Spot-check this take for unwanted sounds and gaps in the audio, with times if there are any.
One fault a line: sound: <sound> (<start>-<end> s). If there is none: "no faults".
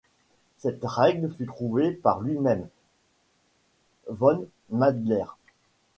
no faults